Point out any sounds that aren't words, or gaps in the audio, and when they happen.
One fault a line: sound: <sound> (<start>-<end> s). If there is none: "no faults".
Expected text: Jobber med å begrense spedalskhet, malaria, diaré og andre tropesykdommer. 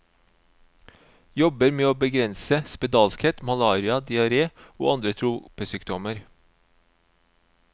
no faults